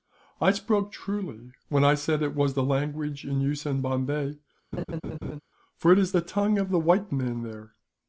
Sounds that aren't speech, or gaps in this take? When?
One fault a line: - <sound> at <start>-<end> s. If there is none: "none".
- laugh at 4.7-5.4 s